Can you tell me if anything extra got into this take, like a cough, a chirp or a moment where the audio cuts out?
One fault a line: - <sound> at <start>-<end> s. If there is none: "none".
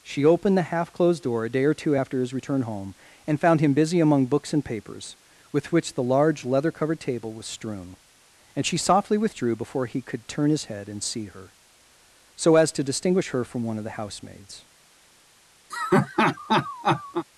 - laugh at 15.7-17.3 s